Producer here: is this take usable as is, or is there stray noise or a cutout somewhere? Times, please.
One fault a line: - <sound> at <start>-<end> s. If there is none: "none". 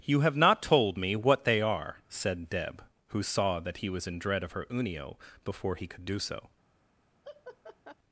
- laugh at 7.2-7.9 s